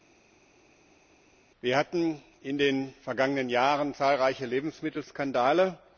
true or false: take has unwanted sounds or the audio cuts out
false